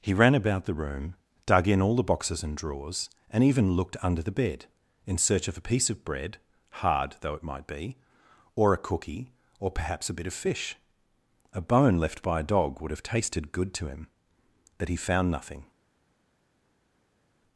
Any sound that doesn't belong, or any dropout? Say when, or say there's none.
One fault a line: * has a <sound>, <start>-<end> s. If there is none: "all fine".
all fine